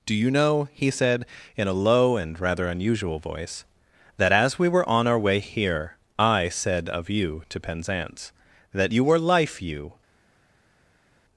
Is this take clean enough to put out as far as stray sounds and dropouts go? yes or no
yes